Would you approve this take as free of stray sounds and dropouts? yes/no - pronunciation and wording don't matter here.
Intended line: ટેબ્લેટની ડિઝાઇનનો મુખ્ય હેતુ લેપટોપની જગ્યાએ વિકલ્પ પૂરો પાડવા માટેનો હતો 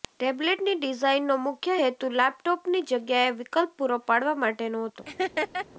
no